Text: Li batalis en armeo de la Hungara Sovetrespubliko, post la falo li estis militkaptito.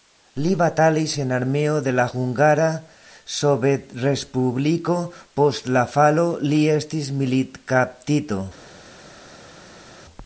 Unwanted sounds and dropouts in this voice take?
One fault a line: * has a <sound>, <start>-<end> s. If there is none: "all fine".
all fine